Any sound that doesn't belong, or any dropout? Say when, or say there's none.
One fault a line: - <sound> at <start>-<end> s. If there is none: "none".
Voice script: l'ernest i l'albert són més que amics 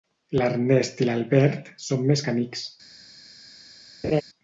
- laugh at 4.0-4.2 s